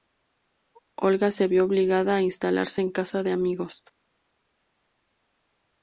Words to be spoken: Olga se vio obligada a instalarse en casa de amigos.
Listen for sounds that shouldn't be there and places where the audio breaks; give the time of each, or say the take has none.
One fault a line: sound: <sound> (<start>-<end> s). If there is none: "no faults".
no faults